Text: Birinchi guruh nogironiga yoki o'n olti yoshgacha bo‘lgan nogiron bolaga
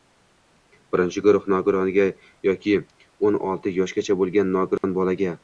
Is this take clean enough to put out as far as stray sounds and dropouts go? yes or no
no